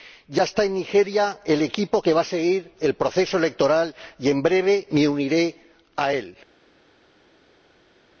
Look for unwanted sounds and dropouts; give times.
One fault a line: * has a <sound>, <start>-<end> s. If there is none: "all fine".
all fine